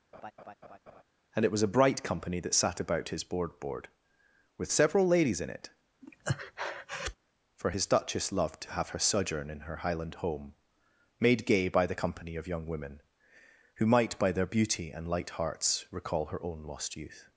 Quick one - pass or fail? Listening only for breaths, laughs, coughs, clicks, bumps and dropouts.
fail